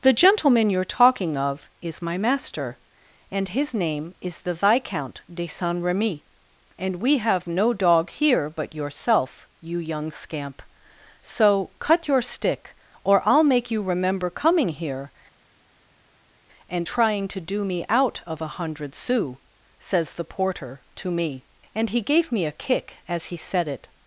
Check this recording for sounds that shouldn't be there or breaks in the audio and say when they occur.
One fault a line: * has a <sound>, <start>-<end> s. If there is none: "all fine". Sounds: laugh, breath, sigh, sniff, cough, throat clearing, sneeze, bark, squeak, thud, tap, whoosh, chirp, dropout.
all fine